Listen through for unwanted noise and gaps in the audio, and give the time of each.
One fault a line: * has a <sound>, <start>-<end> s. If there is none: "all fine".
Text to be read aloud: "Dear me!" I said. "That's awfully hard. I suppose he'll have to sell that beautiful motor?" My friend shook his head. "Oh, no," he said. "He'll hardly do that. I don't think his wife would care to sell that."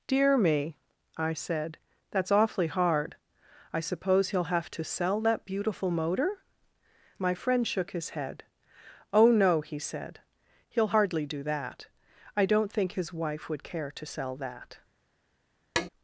* has a tap, 15.8-15.9 s